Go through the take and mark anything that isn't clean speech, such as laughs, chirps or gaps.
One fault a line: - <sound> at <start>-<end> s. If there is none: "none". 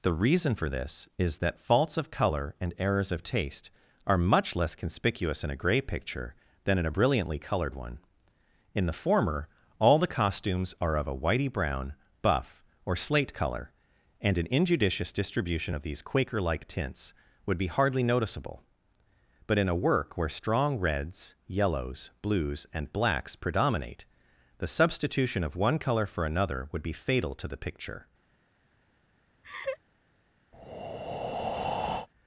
- laugh at 29.4-29.8 s
- breath at 30.5-32.1 s